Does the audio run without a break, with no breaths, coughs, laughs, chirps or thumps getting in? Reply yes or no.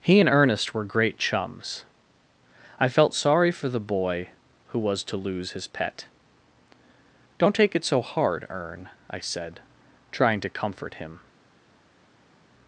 yes